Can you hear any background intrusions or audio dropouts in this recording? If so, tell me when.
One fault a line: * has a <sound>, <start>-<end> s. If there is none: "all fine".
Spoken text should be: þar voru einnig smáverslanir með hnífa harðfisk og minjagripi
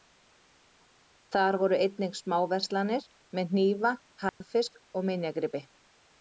* has a dropout, 4.3-4.4 s